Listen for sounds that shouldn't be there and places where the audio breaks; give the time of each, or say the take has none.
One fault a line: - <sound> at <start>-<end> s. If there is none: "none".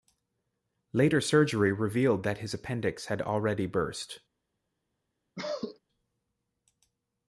- cough at 5.4-5.8 s